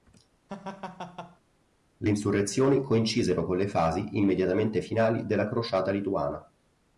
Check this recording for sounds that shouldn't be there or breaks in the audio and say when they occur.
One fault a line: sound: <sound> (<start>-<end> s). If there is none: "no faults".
sound: laugh (0.5-1.4 s)